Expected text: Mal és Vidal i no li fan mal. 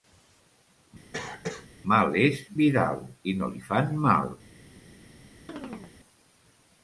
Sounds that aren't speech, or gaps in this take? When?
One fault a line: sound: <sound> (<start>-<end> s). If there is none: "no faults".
sound: cough (1.1-1.7 s)
sound: chirp (5.5-5.9 s)